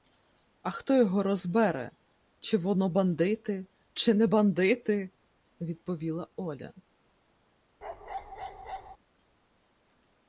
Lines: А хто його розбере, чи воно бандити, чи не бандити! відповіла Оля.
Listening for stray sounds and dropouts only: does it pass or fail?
fail